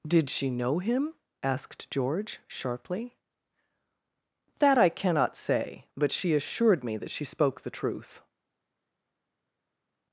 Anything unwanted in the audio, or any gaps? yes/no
no